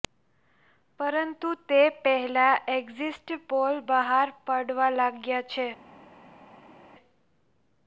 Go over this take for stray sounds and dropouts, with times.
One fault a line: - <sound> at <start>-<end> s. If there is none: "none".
none